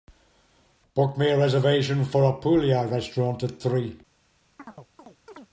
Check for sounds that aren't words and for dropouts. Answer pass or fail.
fail